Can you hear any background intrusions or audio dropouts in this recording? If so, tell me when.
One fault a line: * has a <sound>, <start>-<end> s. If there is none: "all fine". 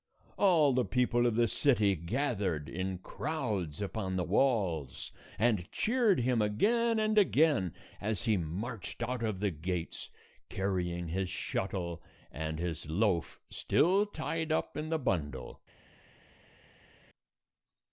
all fine